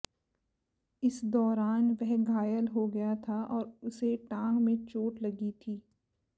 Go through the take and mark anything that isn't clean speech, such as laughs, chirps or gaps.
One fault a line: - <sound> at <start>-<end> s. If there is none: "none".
none